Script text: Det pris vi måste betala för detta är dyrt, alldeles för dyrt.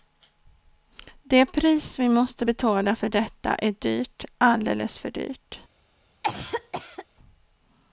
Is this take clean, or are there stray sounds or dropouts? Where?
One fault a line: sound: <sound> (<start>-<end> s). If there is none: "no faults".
sound: cough (6.2-7.1 s)